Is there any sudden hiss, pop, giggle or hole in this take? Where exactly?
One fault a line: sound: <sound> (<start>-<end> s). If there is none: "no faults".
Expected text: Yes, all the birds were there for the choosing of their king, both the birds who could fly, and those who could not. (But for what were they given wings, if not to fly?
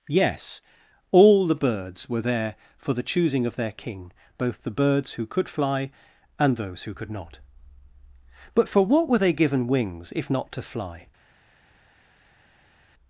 no faults